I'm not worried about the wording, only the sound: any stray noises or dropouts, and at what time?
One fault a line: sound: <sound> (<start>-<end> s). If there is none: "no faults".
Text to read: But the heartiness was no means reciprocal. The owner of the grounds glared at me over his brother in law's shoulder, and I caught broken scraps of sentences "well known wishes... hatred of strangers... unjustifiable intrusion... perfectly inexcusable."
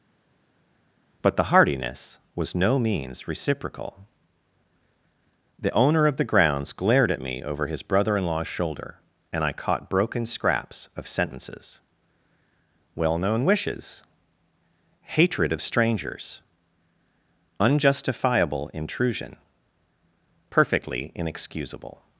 no faults